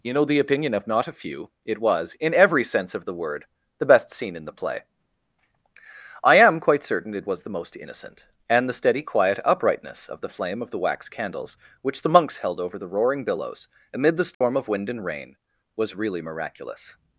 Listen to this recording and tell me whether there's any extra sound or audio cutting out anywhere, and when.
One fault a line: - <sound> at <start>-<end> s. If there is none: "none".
- dropout at 14.3-14.4 s